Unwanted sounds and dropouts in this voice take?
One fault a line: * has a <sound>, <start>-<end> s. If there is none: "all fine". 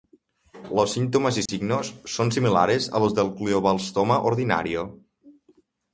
* has a dropout, 1.5-1.5 s